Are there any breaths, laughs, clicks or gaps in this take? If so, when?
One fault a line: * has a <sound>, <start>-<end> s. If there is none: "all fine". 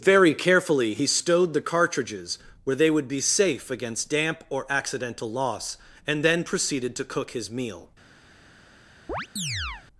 * has a chirp, 9.1-9.9 s